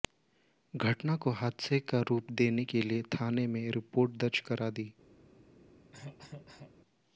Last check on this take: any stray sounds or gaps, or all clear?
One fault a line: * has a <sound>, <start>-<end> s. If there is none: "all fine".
* has a cough, 5.9-6.7 s